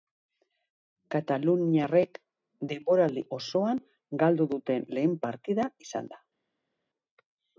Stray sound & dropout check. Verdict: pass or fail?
pass